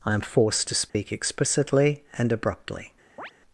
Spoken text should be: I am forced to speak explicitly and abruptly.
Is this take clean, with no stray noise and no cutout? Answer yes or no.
no